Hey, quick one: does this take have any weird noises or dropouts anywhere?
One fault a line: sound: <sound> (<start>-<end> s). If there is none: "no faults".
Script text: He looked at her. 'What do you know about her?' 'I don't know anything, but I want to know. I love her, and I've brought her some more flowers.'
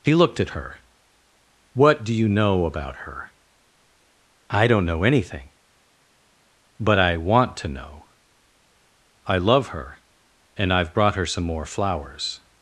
no faults